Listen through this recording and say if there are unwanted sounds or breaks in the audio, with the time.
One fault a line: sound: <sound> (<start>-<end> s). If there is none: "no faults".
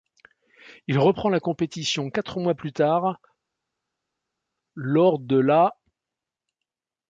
no faults